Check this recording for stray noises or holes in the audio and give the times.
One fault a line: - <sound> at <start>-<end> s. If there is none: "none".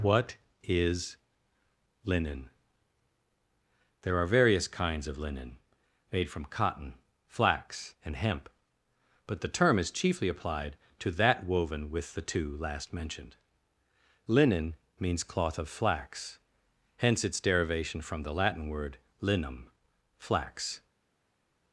none